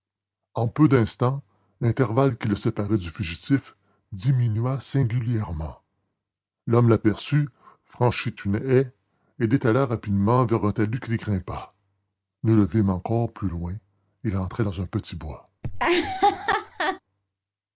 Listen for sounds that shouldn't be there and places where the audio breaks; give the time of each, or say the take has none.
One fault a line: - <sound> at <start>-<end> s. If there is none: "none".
- laugh at 15.6-17.0 s